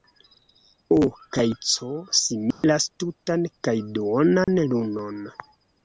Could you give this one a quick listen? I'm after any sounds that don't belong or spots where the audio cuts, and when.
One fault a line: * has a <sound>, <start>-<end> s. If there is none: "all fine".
* has a dropout, 2.5-2.6 s
* has a dropout, 4.4-4.5 s